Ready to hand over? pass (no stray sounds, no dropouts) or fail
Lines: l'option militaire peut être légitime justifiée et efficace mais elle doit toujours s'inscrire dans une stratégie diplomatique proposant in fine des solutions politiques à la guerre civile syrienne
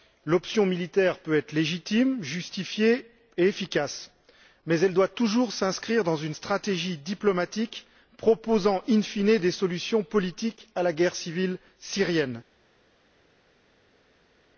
pass